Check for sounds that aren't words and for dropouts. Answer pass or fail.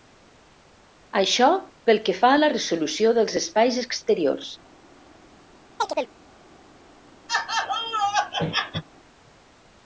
fail